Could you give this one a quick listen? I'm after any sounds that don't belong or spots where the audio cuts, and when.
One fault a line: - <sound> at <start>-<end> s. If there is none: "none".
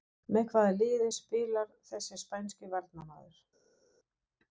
none